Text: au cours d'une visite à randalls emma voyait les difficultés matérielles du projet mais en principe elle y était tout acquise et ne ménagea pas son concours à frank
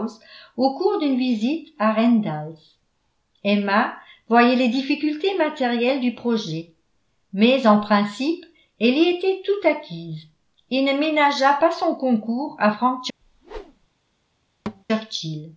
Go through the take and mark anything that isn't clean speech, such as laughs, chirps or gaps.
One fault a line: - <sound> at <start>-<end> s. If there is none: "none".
- whoosh at 13.2-13.9 s
- thud at 14.7-14.8 s